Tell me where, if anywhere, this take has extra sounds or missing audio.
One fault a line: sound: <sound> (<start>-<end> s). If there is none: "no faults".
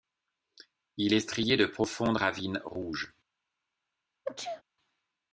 sound: sneeze (4.3-4.6 s)